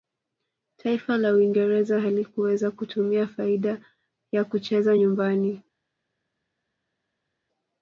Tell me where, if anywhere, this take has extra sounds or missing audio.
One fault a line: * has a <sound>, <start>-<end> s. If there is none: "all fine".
all fine